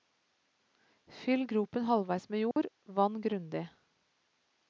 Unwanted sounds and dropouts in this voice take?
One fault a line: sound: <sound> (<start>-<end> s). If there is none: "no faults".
sound: dropout (2.5-2.6 s)